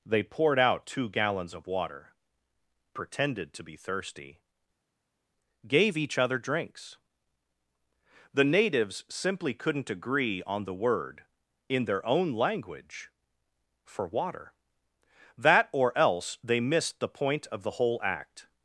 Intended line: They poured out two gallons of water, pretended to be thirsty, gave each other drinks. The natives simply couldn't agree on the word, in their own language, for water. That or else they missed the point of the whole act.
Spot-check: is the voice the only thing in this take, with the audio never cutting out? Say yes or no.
yes